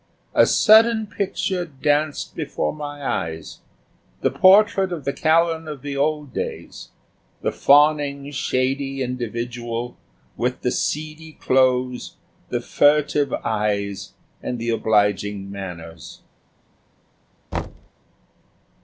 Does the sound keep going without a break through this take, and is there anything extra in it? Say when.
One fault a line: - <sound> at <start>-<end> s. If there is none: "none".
- thud at 17.5-17.9 s